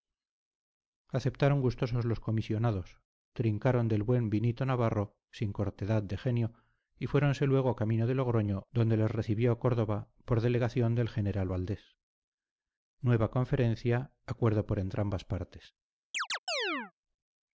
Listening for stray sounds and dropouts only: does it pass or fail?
fail